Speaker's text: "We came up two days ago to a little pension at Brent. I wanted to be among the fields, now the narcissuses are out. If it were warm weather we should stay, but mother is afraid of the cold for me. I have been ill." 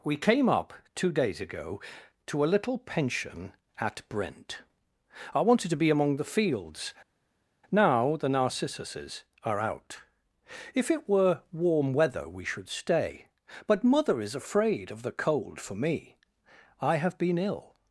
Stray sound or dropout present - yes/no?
no